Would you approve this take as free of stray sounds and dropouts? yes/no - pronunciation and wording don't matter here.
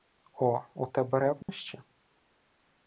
no